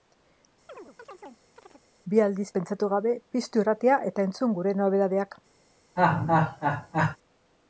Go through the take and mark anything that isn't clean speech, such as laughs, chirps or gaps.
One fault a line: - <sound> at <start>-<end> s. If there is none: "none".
- chirp at 0.7-1.8 s
- laugh at 6.0-7.2 s